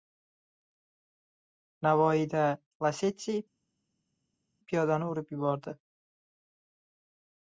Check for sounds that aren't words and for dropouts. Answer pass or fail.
pass